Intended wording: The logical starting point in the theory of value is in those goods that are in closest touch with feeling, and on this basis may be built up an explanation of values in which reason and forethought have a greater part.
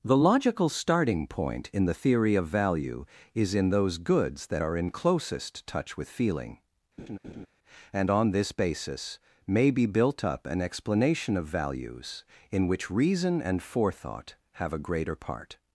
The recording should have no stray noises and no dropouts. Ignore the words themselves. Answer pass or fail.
fail